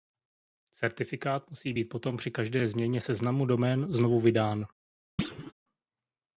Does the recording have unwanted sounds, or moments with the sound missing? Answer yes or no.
yes